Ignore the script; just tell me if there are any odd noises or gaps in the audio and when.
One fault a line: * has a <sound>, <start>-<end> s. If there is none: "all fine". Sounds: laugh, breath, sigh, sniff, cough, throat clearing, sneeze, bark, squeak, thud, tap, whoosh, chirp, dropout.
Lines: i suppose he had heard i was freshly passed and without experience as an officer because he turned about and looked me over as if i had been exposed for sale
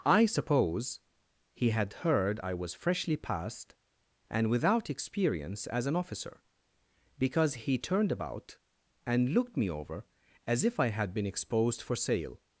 all fine